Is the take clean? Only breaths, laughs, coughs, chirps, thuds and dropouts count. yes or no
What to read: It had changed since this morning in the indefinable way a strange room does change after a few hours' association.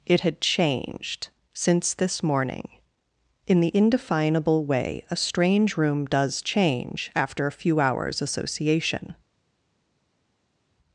yes